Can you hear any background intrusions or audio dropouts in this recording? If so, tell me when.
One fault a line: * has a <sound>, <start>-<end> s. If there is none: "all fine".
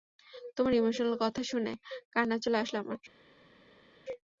all fine